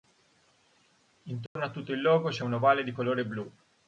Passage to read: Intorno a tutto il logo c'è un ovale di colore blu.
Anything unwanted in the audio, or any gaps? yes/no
yes